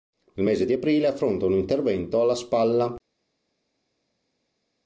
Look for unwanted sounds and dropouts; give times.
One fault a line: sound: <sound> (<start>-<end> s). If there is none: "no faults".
no faults